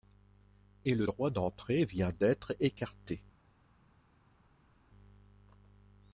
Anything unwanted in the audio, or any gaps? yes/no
no